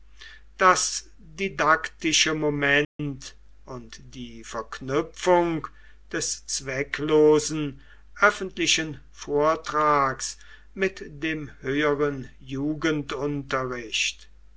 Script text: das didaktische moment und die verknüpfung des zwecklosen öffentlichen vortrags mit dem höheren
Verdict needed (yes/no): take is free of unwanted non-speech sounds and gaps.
no